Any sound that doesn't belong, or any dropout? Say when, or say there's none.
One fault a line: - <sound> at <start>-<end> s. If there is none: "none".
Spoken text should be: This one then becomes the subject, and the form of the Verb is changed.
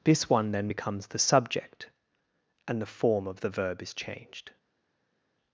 none